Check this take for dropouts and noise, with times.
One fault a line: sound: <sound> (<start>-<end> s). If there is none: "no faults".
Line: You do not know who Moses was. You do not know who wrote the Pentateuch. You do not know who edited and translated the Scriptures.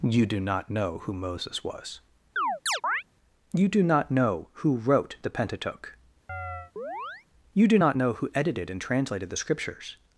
sound: chirp (2.4-3.0 s)
sound: chirp (6.3-7.3 s)